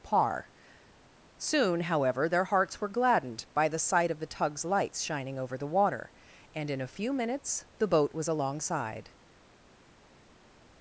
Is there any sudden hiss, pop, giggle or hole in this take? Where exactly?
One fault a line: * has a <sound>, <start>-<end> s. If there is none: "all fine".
all fine